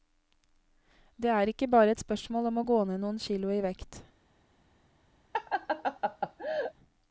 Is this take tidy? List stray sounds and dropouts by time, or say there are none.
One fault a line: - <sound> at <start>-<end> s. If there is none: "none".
- laugh at 5.3-6.7 s